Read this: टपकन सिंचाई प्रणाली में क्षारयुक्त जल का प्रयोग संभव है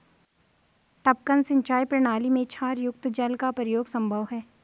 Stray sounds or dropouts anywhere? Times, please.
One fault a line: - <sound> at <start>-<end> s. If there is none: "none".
none